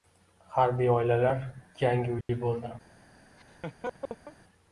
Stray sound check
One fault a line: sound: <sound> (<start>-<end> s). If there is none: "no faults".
sound: dropout (2.2-2.3 s)
sound: laugh (3.4-4.4 s)